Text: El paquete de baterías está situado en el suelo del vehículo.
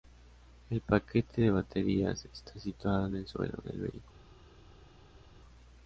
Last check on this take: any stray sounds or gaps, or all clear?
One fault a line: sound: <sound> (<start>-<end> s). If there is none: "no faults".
no faults